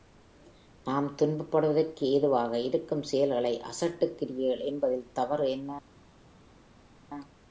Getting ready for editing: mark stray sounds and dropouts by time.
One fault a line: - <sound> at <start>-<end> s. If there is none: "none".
none